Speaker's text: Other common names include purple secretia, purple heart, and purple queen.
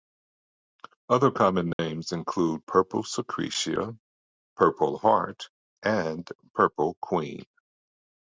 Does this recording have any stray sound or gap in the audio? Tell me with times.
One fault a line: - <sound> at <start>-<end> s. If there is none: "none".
- dropout at 1.7-1.8 s